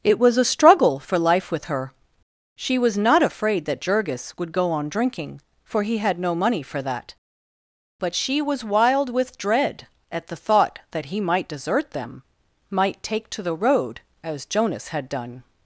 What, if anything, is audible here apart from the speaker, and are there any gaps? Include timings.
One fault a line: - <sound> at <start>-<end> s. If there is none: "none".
none